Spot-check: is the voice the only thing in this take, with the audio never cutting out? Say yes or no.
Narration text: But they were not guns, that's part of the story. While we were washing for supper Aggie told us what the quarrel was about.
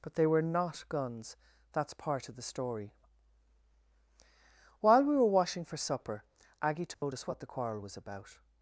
no